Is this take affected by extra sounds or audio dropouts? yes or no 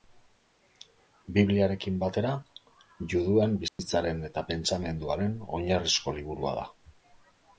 yes